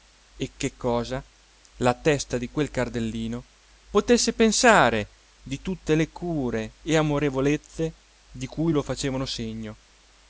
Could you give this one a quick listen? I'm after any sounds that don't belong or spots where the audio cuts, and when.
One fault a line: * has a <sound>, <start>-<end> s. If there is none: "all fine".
all fine